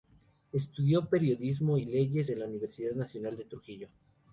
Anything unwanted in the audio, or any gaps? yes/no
no